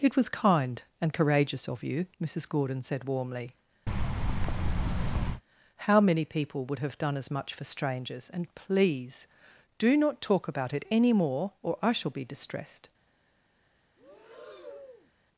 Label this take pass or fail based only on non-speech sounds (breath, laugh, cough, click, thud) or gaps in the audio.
fail